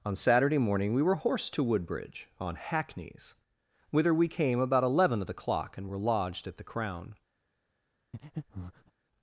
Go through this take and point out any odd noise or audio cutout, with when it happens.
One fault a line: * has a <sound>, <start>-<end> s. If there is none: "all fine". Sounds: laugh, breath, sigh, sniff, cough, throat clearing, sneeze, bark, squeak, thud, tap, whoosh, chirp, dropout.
* has a breath, 8.1-8.9 s